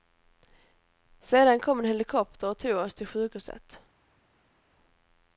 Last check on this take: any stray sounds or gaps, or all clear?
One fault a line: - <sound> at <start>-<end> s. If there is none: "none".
none